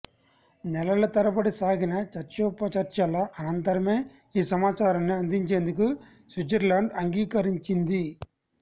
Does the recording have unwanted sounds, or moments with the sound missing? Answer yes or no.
no